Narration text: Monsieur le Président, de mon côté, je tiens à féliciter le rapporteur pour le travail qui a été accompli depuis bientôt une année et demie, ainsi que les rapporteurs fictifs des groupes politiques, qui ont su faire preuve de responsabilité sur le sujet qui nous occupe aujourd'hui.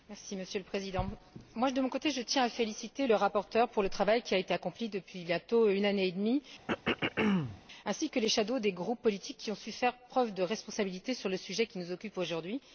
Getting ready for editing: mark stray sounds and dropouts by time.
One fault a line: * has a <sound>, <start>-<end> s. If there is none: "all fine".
* has a throat clearing, 6.7-7.6 s